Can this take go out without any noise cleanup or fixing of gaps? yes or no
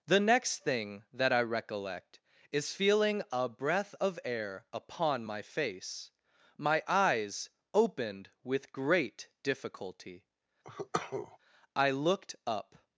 no